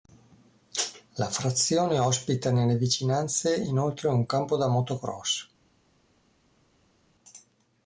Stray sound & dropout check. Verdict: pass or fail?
pass